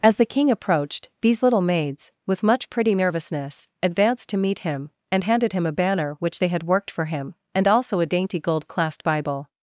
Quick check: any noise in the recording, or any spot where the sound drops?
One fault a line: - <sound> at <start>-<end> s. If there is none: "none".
none